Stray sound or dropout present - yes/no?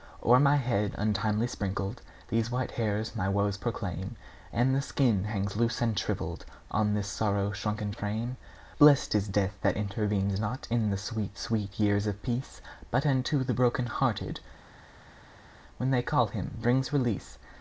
no